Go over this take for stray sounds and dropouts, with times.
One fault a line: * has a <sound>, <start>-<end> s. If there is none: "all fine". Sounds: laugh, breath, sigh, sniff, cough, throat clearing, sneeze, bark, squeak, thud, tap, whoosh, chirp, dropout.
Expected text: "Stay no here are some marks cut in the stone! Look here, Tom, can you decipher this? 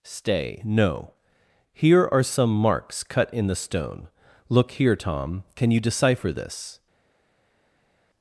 all fine